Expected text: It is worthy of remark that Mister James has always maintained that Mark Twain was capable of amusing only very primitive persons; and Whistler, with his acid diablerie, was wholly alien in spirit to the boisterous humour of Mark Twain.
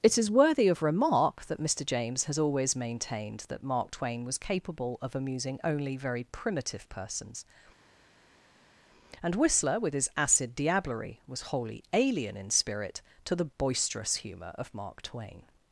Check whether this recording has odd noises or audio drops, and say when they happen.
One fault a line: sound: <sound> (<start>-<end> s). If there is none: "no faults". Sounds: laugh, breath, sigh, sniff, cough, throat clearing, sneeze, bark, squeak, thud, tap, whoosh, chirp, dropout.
no faults